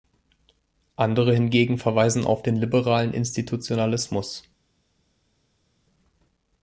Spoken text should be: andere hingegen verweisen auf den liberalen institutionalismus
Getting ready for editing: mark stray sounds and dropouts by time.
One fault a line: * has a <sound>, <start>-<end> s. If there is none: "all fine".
all fine